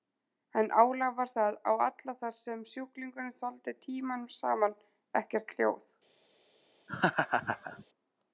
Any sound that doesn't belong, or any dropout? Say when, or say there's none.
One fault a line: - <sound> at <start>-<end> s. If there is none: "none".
- laugh at 6.9-7.8 s